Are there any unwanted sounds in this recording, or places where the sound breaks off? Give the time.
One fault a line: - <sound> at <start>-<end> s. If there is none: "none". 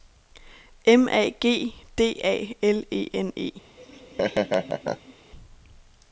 - laugh at 3.8-5.1 s